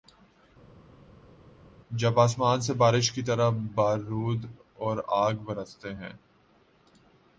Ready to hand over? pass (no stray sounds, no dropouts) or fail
pass